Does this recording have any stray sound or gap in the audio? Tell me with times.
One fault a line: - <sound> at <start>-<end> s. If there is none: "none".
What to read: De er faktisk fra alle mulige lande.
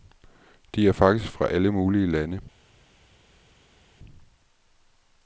none